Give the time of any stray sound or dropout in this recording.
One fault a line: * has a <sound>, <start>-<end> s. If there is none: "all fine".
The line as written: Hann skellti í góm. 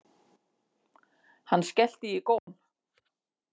* has a dropout, 2.4-2.5 s